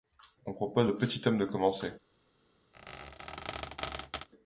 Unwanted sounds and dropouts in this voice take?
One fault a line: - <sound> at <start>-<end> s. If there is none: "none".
- squeak at 2.7-4.3 s